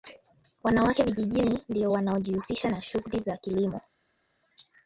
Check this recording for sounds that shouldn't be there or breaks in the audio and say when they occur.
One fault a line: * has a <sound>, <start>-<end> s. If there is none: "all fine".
all fine